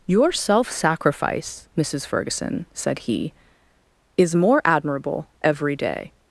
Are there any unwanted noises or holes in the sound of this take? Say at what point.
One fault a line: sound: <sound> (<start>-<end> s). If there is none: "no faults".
no faults